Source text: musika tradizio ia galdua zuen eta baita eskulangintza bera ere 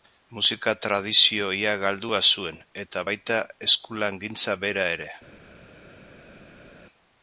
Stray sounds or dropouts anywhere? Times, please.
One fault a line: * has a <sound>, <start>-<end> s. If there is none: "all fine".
all fine